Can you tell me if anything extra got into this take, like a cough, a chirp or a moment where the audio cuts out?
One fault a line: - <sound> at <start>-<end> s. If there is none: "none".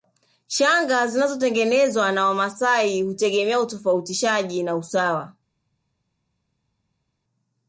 none